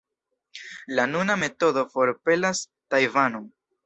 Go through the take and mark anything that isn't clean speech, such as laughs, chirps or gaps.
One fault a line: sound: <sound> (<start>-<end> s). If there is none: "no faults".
no faults